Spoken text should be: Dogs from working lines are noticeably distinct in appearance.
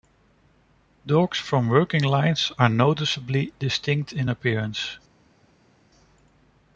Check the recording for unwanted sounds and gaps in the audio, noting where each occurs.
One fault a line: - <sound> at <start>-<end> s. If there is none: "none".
none